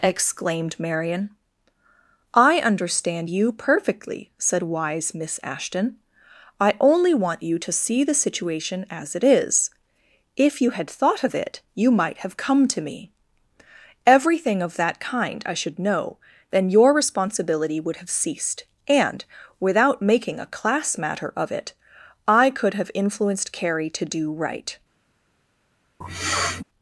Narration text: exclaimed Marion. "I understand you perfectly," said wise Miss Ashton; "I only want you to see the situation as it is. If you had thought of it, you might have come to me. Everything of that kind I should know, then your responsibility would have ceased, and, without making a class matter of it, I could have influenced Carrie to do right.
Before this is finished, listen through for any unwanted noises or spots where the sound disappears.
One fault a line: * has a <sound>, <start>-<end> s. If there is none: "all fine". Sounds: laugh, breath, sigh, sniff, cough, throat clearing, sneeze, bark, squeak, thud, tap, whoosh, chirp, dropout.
* has a sniff, 26.0-26.6 s